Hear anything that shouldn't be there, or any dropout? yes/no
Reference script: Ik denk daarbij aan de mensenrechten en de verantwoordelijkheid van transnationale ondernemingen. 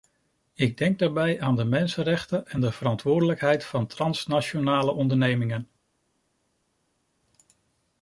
no